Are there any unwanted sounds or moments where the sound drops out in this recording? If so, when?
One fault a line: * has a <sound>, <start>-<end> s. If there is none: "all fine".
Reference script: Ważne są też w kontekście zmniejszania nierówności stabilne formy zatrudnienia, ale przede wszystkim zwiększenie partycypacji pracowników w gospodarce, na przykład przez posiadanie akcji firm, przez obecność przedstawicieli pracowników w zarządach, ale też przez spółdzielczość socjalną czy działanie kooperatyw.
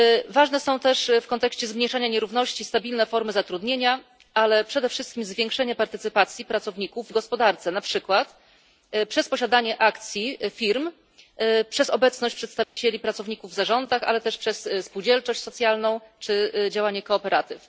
* has a dropout, 12.6-12.8 s